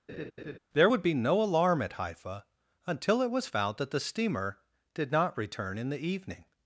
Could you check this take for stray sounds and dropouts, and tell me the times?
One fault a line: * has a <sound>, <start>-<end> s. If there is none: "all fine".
* has a laugh, 0.1-0.6 s